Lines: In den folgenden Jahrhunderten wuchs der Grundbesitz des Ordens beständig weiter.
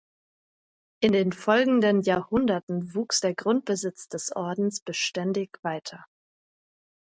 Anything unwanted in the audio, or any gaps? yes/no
no